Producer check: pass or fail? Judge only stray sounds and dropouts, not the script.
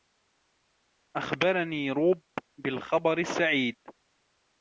pass